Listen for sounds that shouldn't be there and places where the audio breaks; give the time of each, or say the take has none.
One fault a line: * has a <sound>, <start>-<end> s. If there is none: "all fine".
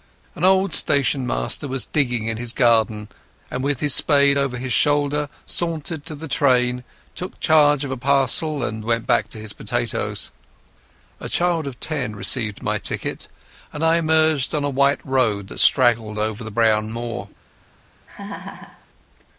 * has a laugh, 18.1-18.9 s